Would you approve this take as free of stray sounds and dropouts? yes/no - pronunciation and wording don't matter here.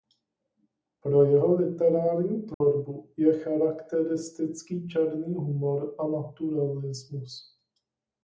no